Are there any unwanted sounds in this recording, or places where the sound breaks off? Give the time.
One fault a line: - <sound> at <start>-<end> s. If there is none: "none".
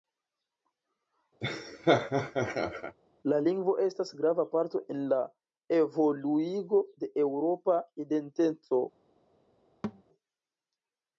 - laugh at 1.4-3.0 s
- thud at 9.8-10.0 s